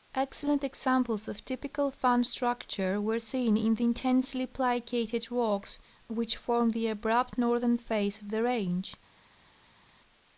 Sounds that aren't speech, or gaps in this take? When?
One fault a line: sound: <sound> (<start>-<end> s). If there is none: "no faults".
no faults